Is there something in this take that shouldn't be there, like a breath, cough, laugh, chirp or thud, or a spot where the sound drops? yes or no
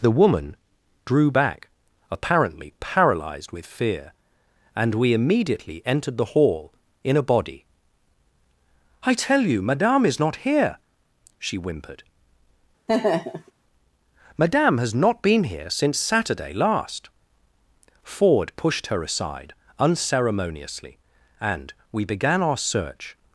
yes